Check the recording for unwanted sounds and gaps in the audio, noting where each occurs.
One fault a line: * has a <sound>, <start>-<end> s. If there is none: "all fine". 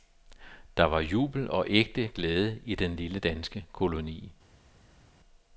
all fine